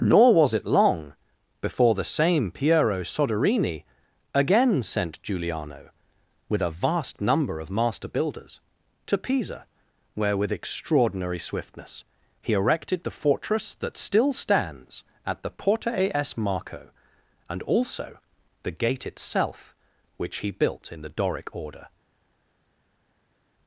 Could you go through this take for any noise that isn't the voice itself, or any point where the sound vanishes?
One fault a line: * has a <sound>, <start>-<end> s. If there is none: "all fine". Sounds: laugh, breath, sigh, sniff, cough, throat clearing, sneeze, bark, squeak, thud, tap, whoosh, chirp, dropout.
all fine